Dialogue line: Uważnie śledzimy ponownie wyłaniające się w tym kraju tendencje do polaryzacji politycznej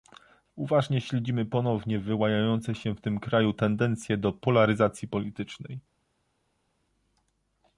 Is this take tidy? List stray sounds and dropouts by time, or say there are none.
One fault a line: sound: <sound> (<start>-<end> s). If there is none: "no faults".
no faults